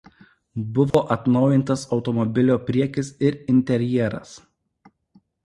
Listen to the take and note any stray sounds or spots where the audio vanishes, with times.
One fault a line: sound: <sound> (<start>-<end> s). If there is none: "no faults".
sound: dropout (0.9-0.9 s)